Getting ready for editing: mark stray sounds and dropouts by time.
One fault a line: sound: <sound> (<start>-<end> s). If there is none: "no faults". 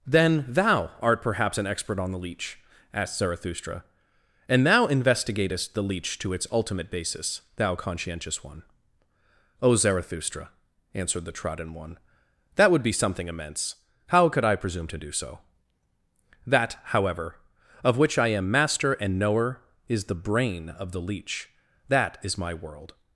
no faults